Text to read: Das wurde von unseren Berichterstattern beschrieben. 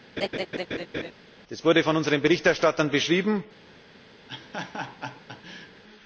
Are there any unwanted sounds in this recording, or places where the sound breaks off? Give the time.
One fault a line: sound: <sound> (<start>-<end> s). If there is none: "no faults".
sound: laugh (0.2-1.1 s)
sound: laugh (4.3-5.8 s)